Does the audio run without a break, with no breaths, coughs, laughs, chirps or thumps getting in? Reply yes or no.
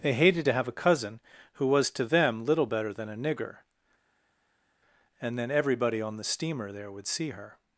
yes